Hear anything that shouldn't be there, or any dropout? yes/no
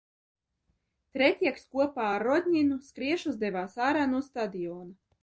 no